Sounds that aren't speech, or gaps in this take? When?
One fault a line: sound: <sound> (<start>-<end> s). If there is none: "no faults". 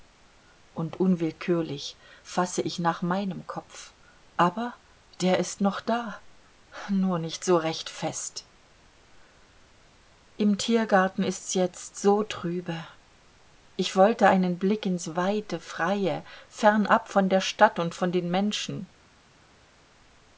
no faults